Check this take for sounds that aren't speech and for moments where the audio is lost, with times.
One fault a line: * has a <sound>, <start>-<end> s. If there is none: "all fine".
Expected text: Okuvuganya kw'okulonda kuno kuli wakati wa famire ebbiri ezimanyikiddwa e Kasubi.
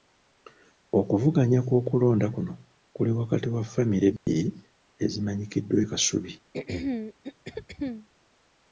* has a dropout, 4.2-4.3 s
* has a throat clearing, 6.5-8.1 s